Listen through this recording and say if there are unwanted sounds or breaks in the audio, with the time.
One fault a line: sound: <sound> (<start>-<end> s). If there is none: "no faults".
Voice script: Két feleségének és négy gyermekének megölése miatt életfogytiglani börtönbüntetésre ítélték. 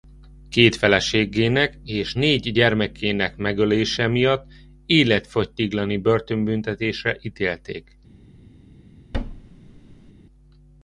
sound: thud (9.1-10.1 s)